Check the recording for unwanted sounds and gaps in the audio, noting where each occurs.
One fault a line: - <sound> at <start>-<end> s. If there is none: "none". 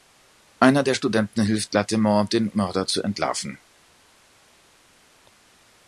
none